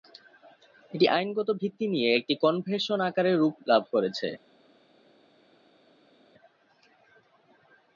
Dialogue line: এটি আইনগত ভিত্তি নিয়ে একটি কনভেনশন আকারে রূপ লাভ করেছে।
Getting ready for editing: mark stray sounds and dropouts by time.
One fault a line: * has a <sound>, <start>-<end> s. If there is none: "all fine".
all fine